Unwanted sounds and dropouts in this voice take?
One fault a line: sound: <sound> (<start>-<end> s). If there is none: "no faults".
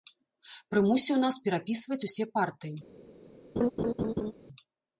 sound: laugh (3.6-4.3 s)